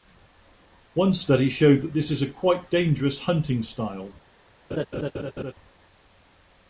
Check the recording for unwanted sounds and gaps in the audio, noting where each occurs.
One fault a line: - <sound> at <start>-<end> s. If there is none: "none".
- laugh at 4.7-5.5 s